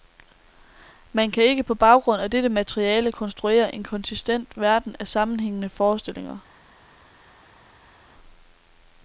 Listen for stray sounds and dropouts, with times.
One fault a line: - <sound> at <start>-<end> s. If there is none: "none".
none